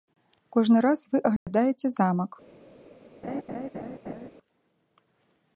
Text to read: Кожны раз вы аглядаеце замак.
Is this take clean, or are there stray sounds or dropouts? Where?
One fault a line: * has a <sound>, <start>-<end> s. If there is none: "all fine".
* has a dropout, 1.4-1.5 s
* has a laugh, 3.2-4.3 s